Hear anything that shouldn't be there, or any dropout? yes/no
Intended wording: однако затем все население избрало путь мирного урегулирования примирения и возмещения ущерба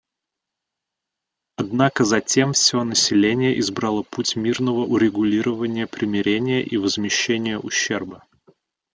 no